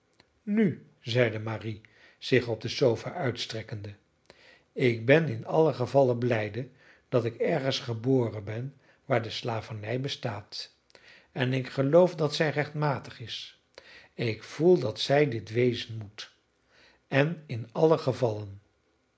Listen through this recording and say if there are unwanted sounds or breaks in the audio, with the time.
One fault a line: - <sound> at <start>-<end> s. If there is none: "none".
none